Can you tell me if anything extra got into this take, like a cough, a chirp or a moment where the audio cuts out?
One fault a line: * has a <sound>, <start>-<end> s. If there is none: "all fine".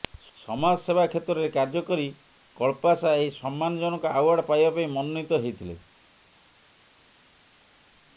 all fine